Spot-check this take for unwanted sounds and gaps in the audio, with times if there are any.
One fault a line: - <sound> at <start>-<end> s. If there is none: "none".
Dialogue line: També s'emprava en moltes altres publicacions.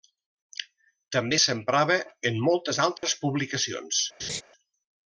- dropout at 3.0-3.0 s
- laugh at 4.2-4.4 s